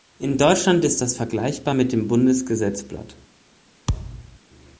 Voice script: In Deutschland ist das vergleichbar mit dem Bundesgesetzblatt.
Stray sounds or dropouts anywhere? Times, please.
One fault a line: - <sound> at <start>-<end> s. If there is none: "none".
- thud at 3.9-4.4 s